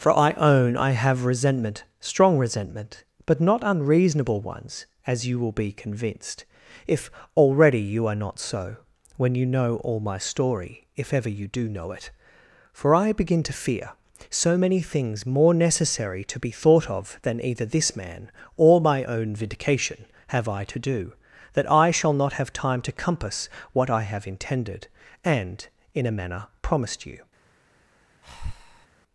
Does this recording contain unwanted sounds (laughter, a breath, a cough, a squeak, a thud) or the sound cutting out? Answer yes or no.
yes